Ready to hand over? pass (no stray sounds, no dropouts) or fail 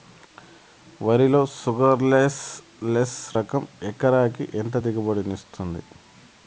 pass